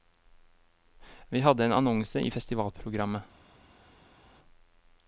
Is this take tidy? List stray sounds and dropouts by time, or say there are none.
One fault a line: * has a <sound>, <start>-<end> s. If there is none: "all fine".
all fine